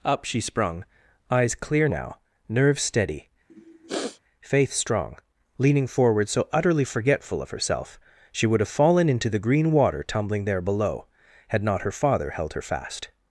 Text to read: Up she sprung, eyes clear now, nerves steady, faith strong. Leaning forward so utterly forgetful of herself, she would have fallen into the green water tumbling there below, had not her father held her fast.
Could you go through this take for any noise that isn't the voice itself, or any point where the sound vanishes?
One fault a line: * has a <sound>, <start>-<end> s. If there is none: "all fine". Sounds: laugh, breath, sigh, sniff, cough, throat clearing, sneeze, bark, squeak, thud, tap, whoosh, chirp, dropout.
* has a sniff, 3.5-4.2 s